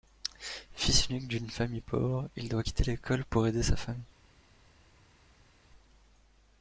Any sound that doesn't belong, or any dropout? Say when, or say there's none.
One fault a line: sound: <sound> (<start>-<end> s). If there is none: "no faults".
no faults